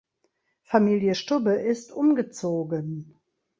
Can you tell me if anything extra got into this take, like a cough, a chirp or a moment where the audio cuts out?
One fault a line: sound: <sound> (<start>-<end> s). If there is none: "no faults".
no faults